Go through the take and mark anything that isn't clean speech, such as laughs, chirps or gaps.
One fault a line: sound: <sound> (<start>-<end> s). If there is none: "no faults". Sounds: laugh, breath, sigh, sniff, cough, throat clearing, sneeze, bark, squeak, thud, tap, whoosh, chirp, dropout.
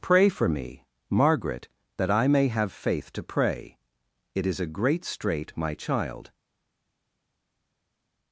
no faults